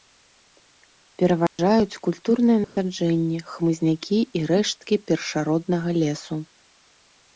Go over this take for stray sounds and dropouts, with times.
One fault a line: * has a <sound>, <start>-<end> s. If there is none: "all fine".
* has a dropout, 1.5-1.6 s
* has a dropout, 2.6-2.8 s